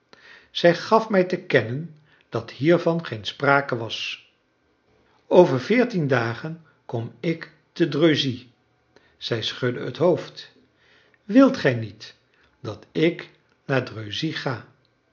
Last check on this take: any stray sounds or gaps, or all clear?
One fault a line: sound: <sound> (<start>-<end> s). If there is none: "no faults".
no faults